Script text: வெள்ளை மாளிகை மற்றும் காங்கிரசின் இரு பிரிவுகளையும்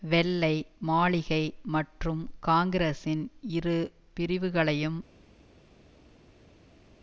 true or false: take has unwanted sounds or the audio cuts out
false